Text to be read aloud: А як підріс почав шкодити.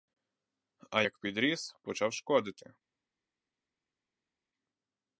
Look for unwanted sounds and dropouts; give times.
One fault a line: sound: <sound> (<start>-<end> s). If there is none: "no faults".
no faults